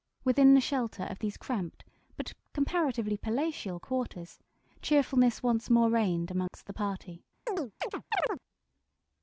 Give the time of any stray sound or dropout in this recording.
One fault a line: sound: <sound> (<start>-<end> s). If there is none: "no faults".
sound: dropout (6.5-6.5 s)
sound: chirp (7.5-8.4 s)